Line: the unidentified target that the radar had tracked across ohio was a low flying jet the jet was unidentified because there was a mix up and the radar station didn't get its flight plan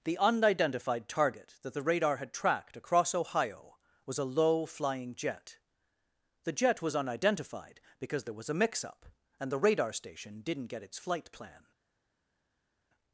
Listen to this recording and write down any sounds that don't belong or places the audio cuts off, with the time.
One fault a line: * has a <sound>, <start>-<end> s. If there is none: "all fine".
all fine